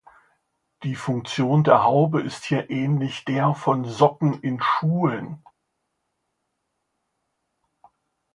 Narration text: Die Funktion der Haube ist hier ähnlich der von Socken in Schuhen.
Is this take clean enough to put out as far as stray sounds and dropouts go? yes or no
yes